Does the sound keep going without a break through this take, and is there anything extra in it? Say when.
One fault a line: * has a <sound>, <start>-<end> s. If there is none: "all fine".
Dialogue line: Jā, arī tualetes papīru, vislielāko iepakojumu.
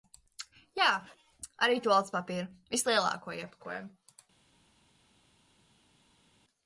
all fine